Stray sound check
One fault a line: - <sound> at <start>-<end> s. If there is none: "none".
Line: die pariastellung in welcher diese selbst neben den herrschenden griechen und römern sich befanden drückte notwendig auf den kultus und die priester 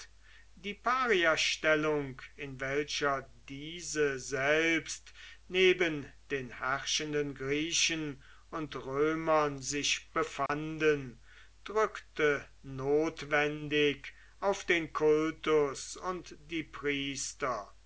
- dropout at 10.5-10.5 s